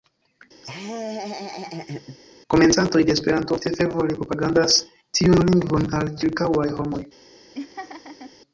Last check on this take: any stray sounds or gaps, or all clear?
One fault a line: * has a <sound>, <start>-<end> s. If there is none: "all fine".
* has a laugh, 0.6-2.2 s
* has a laugh, 7.5-8.3 s